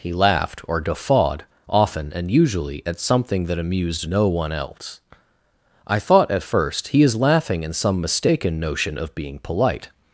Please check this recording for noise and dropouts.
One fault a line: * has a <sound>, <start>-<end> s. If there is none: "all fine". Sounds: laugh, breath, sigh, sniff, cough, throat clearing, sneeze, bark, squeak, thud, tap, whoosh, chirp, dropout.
all fine